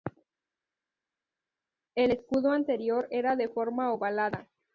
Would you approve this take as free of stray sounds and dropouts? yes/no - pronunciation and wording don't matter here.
yes